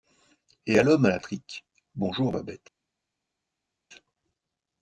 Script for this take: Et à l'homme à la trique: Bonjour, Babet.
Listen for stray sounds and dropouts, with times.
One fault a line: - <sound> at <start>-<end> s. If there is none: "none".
none